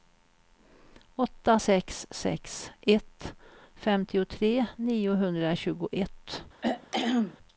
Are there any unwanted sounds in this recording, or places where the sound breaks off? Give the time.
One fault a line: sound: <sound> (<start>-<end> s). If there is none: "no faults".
sound: throat clearing (6.6-7.4 s)